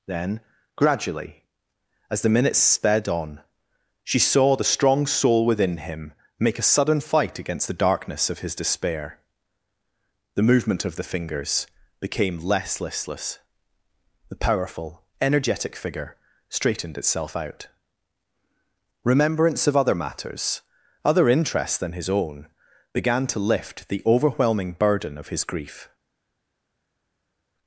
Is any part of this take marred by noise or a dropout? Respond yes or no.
no